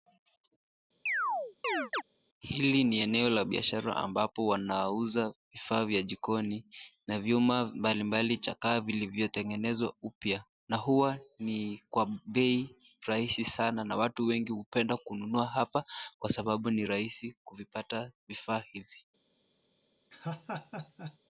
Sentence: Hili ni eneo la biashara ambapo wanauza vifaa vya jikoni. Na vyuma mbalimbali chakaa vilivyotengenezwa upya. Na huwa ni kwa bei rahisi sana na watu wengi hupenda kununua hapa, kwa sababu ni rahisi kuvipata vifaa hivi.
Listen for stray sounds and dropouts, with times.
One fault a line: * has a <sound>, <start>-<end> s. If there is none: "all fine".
* has a chirp, 1.1-2.0 s
* has a laugh, 20.1-21.2 s